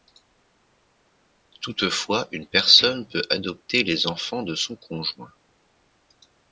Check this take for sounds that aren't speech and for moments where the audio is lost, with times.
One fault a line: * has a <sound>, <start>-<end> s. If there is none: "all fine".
all fine